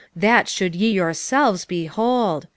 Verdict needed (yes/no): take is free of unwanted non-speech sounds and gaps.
yes